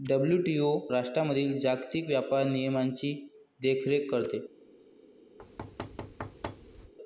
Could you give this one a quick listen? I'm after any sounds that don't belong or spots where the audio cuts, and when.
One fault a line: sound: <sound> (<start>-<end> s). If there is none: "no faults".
sound: thud (5.4-6.9 s)